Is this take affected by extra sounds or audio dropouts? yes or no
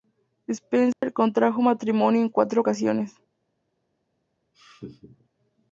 yes